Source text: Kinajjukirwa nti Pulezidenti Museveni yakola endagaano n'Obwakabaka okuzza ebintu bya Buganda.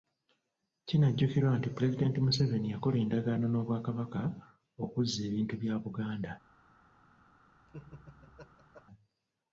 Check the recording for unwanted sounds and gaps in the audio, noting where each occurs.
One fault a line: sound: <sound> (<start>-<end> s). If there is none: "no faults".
sound: laugh (7.7-8.8 s)